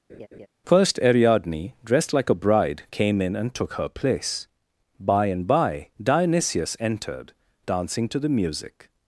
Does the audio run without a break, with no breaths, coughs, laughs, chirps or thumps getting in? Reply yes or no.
no